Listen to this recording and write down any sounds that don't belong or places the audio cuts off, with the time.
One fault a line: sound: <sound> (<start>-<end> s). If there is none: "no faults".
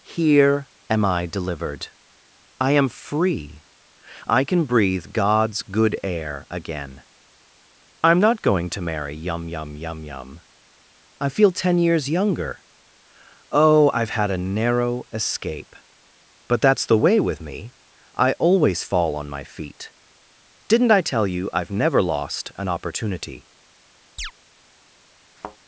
sound: chirp (24.2-24.3 s)
sound: thud (25.4-25.6 s)